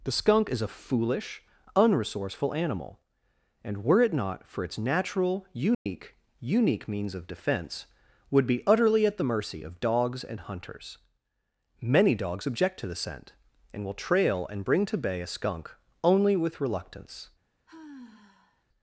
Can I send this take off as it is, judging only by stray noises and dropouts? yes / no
no